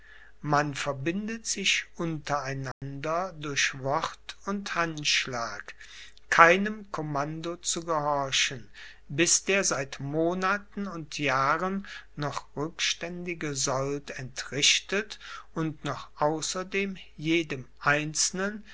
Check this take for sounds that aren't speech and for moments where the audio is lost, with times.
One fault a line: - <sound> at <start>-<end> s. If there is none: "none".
- dropout at 2.7-2.8 s